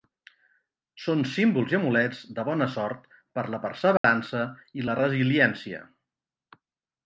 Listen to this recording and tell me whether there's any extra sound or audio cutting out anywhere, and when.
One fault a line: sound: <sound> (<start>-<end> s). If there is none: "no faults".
sound: dropout (4.0-4.0 s)